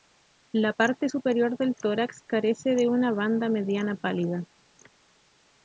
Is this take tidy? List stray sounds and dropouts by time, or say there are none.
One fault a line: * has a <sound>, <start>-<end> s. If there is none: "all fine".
all fine